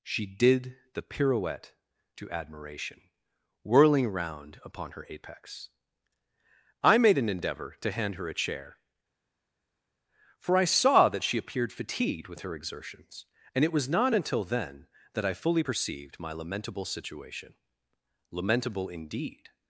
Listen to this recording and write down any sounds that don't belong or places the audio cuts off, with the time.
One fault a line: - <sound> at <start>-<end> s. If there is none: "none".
none